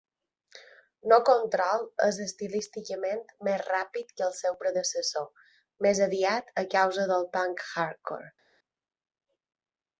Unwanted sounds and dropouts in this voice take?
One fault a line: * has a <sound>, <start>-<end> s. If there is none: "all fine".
all fine